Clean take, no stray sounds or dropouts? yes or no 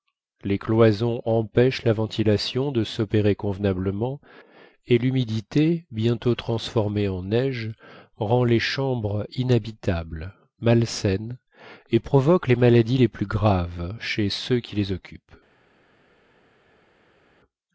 yes